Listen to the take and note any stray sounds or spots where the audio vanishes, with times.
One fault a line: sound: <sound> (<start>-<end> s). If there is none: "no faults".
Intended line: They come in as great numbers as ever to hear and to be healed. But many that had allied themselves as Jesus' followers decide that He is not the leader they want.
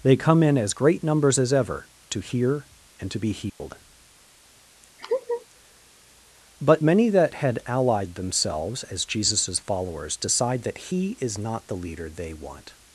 sound: dropout (3.5-3.6 s)
sound: laugh (5.0-5.5 s)